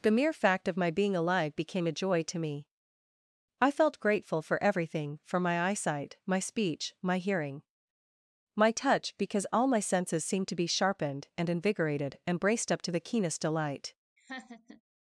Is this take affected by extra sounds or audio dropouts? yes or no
yes